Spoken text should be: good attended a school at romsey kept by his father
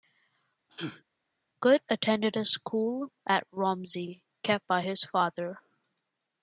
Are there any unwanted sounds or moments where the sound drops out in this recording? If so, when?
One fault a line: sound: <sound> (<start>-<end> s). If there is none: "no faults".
sound: sneeze (0.7-1.0 s)